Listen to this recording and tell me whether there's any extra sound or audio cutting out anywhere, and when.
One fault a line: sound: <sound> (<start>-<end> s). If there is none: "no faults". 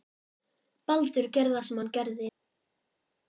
no faults